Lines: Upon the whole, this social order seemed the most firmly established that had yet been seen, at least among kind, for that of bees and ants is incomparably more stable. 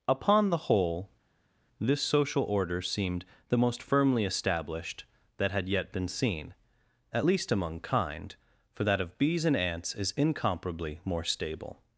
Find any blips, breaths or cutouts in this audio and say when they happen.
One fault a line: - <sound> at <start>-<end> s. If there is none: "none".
none